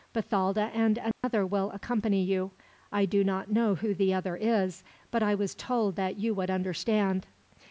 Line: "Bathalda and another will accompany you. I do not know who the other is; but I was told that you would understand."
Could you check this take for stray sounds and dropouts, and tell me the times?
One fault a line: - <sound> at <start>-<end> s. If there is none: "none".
- dropout at 1.1-1.2 s